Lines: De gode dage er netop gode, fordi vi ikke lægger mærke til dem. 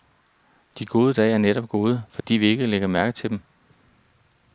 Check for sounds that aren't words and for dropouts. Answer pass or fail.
fail